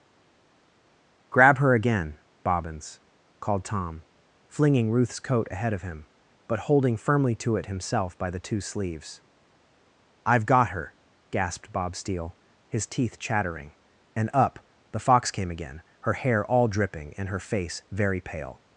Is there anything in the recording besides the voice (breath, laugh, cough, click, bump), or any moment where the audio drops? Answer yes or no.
no